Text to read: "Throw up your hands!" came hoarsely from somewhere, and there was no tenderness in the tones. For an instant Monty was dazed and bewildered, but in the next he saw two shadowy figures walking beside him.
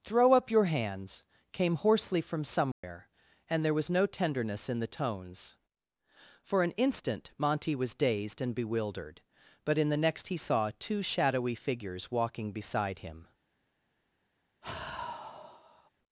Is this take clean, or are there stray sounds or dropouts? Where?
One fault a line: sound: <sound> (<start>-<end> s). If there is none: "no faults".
sound: dropout (2.7-2.8 s)
sound: sigh (14.6-15.9 s)